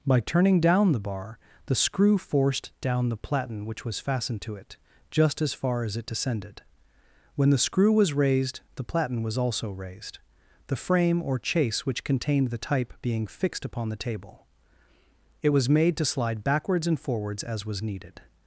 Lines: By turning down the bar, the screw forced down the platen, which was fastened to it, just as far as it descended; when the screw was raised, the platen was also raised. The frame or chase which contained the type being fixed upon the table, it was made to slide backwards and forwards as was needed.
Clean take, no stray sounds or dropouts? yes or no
yes